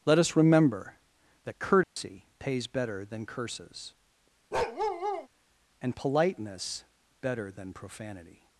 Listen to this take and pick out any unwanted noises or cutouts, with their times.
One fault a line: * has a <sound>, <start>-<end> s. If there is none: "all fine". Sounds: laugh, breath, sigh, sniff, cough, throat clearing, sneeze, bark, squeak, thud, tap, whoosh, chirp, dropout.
* has a dropout, 1.8-2.0 s
* has a bark, 4.5-5.3 s